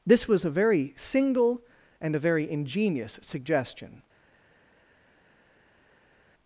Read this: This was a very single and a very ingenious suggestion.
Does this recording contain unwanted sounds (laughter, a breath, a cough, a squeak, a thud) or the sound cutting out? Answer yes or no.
no